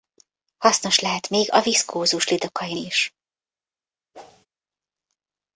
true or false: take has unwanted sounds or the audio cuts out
true